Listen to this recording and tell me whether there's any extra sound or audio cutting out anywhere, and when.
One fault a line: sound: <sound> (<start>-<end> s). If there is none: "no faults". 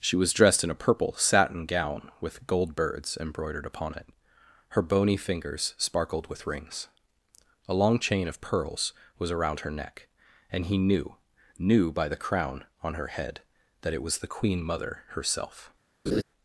sound: laugh (16.1-16.2 s)